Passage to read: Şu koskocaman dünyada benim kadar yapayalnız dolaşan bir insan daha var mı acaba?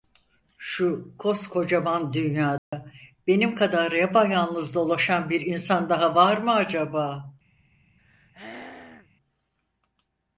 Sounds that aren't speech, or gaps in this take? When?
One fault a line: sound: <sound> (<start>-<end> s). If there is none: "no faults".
sound: dropout (2.6-2.7 s)
sound: throat clearing (8.0-9.1 s)